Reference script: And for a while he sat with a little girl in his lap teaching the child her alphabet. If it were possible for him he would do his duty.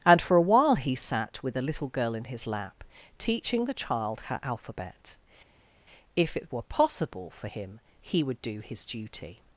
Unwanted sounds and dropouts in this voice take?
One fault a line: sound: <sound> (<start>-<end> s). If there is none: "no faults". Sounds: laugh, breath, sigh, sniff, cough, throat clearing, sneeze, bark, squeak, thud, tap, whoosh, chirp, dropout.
no faults